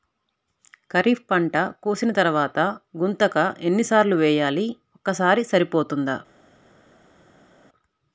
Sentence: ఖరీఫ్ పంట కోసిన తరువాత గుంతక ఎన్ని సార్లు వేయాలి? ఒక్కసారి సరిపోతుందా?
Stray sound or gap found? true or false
false